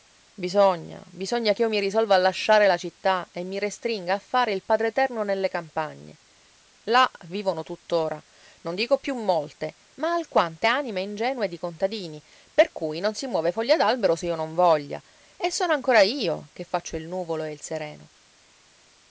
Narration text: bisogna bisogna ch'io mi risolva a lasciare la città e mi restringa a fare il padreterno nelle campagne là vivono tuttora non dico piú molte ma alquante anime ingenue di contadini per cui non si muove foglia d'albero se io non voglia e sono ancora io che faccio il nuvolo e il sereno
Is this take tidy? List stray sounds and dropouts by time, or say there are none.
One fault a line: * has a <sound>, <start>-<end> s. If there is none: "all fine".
all fine